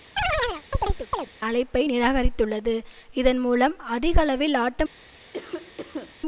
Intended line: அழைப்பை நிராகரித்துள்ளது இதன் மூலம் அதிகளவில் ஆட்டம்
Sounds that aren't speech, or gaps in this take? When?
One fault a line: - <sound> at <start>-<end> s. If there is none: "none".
- chirp at 0.2-1.3 s
- cough at 5.3-6.2 s